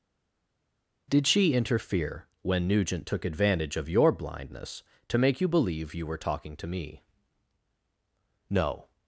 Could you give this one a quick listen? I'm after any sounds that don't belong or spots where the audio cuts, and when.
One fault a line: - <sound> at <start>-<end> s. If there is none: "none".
none